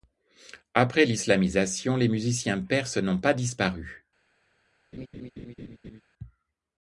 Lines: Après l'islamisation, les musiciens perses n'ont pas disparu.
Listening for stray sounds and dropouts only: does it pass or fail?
fail